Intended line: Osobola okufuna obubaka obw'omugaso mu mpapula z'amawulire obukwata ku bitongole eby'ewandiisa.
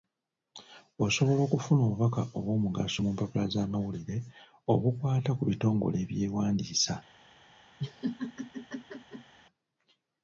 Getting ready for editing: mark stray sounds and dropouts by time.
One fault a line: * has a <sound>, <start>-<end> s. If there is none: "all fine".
* has a laugh, 7.8-9.3 s